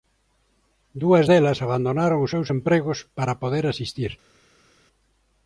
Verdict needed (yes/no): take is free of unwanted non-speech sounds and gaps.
yes